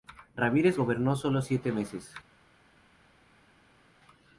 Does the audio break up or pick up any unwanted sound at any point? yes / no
no